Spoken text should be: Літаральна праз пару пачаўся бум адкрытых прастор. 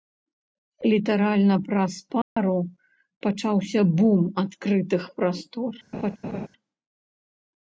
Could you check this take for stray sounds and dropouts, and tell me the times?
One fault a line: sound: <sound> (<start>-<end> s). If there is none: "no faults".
sound: dropout (2.2-2.4 s)
sound: laugh (5.9-6.5 s)